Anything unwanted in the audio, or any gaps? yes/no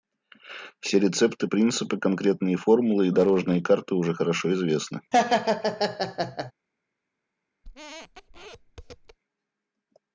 yes